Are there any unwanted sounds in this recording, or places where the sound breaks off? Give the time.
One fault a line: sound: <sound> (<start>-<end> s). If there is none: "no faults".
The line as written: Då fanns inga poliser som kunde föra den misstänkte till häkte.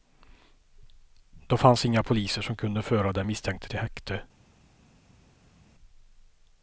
no faults